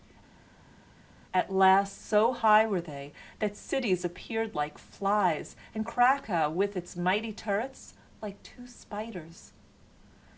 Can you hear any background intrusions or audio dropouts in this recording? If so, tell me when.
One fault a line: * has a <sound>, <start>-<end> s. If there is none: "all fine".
all fine